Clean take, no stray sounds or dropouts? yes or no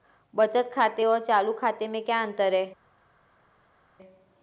yes